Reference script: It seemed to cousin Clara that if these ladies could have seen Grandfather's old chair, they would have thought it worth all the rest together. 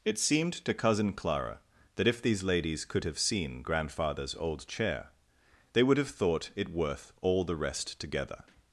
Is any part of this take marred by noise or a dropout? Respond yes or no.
no